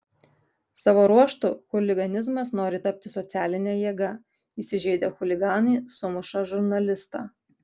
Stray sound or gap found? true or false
false